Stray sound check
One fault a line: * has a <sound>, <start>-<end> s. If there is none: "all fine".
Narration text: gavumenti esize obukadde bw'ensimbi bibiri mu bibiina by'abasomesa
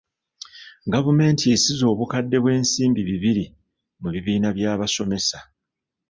all fine